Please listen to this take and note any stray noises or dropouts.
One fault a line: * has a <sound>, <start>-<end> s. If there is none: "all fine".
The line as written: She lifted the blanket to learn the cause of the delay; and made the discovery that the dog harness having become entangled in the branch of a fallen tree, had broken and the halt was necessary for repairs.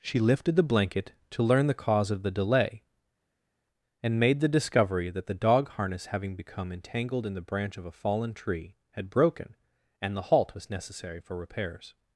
all fine